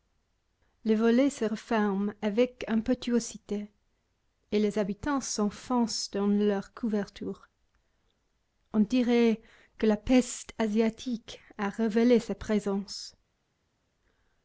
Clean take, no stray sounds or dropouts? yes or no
yes